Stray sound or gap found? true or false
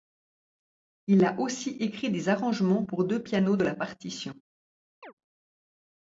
true